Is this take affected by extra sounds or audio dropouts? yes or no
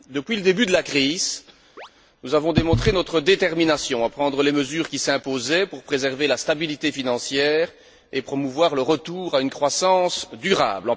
yes